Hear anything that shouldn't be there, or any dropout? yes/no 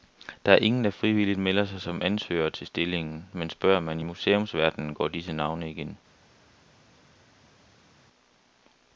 no